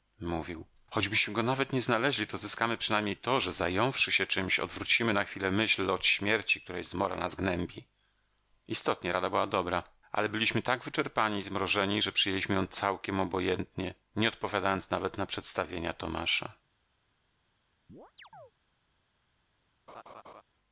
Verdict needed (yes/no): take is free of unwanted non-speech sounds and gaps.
no